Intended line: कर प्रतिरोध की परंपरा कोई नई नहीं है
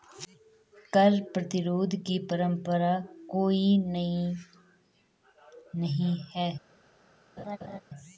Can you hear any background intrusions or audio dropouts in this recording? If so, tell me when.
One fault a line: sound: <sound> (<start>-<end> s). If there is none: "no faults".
sound: laugh (7.4-7.8 s)